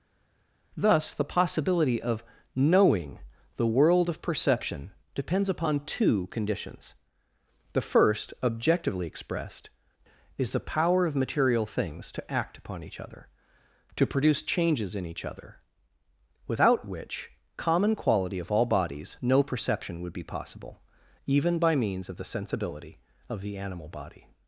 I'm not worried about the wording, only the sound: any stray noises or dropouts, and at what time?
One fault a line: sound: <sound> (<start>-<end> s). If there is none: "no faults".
no faults